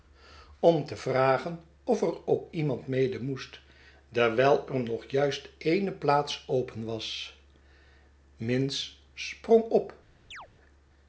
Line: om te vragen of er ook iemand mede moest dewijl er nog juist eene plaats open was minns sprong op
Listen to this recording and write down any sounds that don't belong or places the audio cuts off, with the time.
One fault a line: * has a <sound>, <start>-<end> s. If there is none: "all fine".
* has a chirp, 10.3-10.5 s